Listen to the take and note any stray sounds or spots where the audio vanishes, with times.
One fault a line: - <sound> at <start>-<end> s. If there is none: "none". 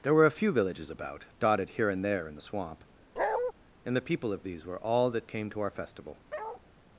- bark at 3.2-3.5 s
- bark at 6.3-6.6 s